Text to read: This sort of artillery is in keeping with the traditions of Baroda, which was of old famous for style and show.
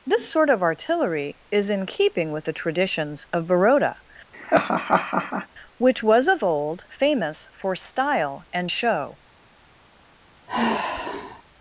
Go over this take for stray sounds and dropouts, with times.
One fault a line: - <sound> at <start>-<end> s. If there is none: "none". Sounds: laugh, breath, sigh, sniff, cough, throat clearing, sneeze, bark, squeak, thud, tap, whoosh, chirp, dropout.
- laugh at 4.3-5.5 s
- sigh at 10.5-11.4 s